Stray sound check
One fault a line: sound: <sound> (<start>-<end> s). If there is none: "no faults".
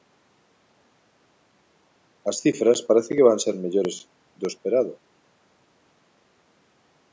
no faults